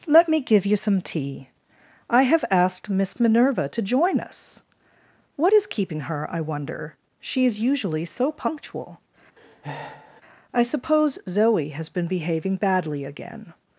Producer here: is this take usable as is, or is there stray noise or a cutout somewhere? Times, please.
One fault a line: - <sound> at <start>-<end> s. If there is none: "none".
- breath at 9.4-10.2 s